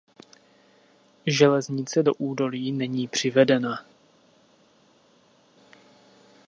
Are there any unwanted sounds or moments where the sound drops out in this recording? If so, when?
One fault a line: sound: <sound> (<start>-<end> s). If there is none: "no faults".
no faults